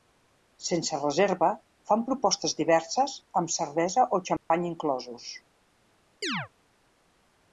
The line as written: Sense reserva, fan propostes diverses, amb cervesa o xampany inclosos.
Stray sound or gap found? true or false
true